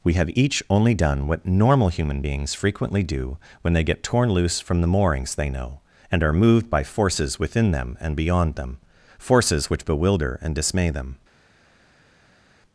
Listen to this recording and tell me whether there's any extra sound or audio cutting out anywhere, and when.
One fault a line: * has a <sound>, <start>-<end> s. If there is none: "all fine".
all fine